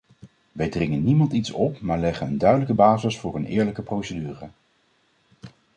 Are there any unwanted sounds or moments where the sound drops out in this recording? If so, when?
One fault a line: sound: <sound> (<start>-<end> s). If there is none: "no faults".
no faults